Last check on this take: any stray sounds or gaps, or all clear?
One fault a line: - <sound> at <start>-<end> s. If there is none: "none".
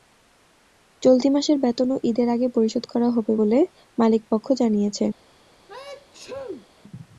- sneeze at 5.7-6.7 s